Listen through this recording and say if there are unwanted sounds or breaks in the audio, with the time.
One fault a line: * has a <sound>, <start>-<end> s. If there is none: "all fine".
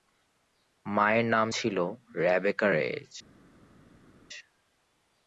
all fine